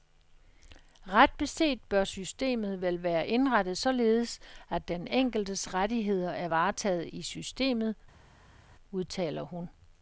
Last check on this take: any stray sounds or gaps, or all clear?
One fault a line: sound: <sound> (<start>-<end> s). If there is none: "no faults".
no faults